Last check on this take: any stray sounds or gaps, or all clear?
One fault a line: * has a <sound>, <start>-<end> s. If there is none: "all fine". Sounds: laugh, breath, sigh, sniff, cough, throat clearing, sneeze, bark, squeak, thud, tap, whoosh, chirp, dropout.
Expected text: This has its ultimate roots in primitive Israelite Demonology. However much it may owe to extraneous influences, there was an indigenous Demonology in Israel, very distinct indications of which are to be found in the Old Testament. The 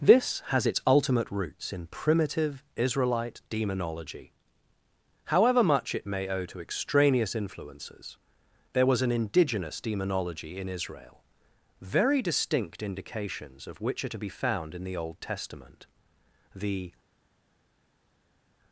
all fine